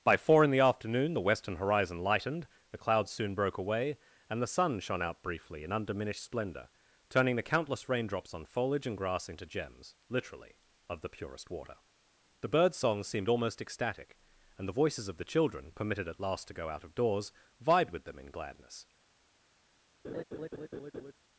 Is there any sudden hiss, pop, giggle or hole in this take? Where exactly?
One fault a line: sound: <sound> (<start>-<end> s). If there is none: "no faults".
sound: laugh (20.0-21.1 s)